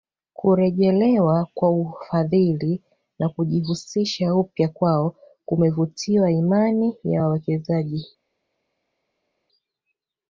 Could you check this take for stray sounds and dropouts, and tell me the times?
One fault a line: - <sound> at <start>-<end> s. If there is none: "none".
none